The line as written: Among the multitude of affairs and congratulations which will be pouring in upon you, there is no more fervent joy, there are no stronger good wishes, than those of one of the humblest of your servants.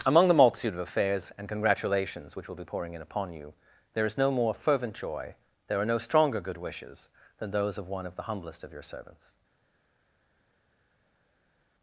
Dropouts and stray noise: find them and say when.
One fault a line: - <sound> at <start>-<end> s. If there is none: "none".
none